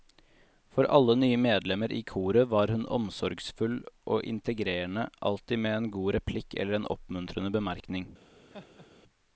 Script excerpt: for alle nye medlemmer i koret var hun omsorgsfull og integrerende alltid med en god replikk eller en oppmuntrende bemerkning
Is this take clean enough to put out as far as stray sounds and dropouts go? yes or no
no